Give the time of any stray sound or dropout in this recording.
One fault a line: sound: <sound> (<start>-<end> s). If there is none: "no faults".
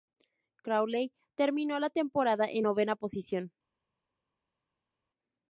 no faults